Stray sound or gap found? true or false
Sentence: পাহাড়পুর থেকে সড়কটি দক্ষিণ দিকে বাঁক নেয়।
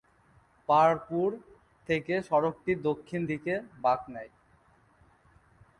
false